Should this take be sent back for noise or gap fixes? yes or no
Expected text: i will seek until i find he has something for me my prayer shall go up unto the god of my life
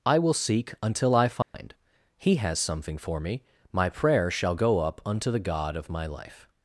yes